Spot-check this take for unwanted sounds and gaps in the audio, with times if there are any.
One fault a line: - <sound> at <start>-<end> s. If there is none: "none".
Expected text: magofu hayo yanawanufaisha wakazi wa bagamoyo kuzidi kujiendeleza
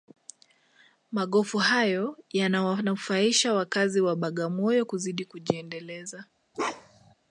- bark at 6.5-7.1 s